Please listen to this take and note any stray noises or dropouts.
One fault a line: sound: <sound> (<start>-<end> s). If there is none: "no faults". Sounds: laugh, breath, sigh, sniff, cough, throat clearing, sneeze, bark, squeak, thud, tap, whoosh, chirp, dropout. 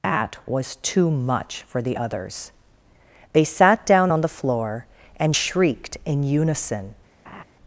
sound: laugh (7.2-7.4 s)